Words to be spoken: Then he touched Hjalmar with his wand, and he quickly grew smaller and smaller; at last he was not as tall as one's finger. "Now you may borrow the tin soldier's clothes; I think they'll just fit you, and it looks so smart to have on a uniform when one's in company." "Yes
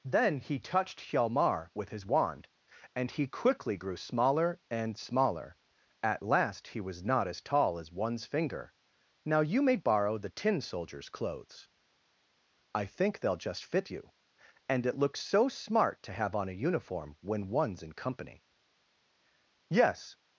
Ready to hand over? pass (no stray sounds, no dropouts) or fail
pass